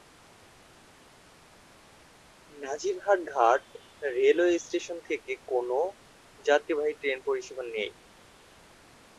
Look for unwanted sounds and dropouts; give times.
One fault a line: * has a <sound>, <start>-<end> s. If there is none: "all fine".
all fine